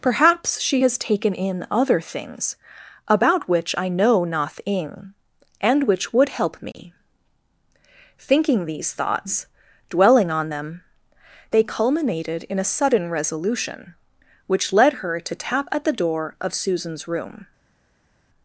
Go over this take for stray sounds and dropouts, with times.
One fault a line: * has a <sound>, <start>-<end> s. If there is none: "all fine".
all fine